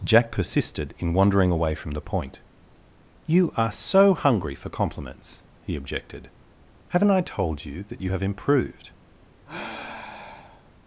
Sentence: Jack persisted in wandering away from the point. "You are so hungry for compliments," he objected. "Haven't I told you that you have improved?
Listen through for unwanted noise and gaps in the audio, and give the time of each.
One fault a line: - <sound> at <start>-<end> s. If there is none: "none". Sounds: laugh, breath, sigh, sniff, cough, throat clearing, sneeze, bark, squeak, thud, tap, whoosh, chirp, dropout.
- sigh at 9.5-10.7 s